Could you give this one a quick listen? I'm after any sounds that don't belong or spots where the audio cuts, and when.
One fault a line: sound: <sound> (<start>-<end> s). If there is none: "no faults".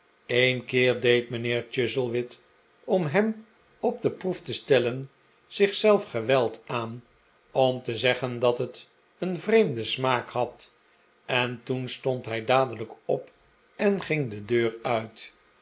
no faults